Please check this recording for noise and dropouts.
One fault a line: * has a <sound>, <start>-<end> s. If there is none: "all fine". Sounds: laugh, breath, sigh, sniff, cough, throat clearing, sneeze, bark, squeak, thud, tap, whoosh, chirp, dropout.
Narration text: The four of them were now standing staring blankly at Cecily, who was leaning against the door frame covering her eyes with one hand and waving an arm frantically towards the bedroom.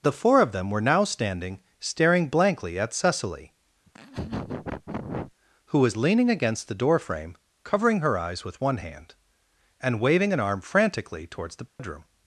* has a laugh, 3.8-5.3 s
* has a dropout, 11.7-11.8 s